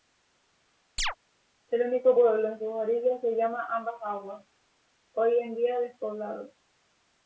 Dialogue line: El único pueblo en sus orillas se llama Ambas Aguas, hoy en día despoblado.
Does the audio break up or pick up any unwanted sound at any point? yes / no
yes